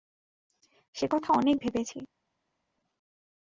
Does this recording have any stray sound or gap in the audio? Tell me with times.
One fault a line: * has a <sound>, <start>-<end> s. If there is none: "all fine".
all fine